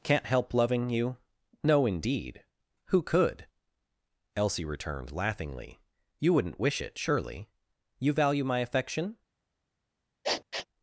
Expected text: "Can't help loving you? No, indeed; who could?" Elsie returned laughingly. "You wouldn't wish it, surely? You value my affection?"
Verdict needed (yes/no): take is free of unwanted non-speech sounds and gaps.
no